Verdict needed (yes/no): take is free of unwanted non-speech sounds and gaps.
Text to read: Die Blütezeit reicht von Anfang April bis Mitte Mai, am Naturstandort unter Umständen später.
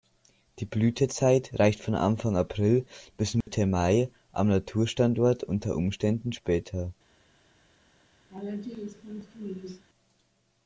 no